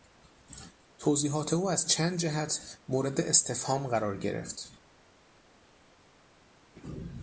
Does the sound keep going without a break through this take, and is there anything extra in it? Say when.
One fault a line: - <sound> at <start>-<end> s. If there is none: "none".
none